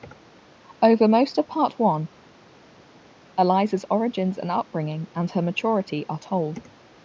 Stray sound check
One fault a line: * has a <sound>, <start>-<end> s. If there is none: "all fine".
all fine